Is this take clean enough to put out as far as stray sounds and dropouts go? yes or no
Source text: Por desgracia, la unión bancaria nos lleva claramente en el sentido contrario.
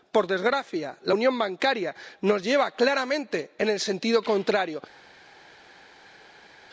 yes